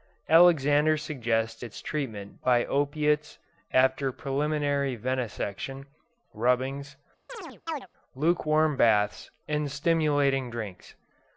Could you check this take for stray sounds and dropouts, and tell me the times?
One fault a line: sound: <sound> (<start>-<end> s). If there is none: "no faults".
sound: chirp (7.3-7.9 s)